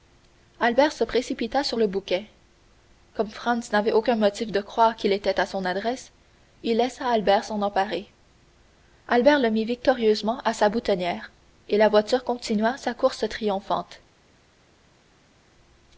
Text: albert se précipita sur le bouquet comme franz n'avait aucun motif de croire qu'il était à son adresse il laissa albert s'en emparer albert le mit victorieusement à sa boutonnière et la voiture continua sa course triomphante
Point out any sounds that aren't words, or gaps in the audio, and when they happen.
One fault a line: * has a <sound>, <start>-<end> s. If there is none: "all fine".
all fine